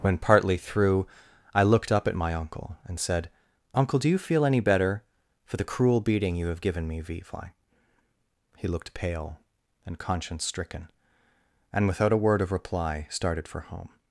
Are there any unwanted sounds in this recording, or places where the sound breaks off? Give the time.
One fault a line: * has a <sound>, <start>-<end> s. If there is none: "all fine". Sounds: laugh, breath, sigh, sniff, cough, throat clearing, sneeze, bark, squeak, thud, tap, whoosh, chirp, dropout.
all fine